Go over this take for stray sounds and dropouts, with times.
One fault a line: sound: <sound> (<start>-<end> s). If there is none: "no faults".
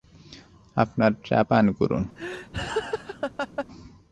sound: laugh (2.2-3.7 s)